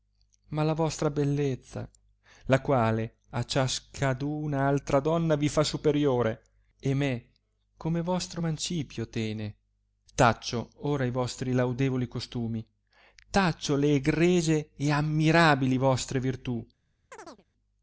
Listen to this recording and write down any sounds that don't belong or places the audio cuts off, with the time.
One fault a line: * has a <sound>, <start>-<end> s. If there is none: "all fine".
* has a chirp, 17.1-17.4 s